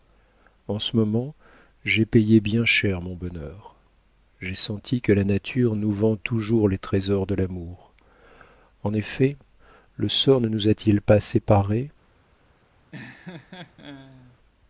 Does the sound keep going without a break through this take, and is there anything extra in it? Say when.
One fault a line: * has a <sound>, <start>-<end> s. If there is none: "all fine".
* has a laugh, 12.9-14.4 s